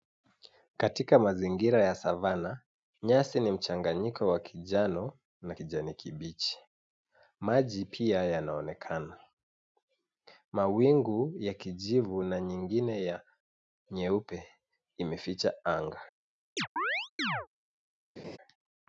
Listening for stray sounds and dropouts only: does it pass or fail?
fail